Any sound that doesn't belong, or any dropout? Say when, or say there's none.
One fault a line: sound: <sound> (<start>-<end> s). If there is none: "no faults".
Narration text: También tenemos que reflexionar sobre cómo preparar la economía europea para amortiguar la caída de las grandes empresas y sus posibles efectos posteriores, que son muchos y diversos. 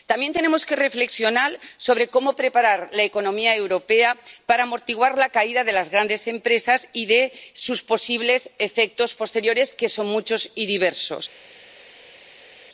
no faults